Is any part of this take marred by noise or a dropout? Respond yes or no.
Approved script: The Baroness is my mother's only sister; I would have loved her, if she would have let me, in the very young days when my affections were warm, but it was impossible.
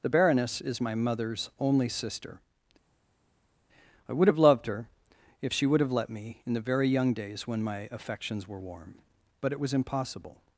no